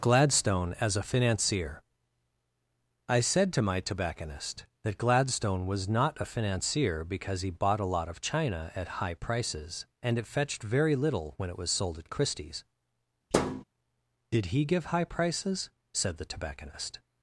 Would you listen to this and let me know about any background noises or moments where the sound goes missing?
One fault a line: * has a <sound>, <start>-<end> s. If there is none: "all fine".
* has a thud, 13.3-13.6 s